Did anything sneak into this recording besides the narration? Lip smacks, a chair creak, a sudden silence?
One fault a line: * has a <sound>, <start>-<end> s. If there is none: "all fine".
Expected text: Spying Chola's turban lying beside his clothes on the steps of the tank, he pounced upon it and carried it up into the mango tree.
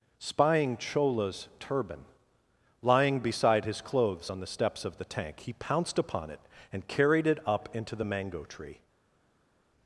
all fine